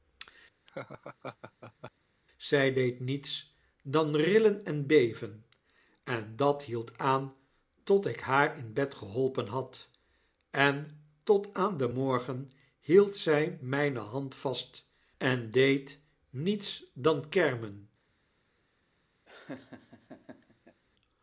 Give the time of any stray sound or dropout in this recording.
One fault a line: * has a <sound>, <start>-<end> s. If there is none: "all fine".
* has a laugh, 0.7-1.9 s
* has a laugh, 19.3-20.8 s